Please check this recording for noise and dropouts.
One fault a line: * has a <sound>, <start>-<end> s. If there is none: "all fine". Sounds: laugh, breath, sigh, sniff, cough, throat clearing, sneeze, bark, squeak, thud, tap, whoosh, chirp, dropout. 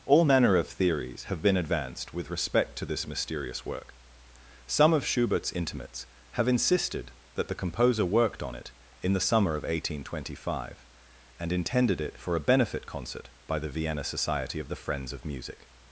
all fine